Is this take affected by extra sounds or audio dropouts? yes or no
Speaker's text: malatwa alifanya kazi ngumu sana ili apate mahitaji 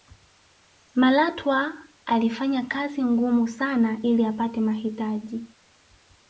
no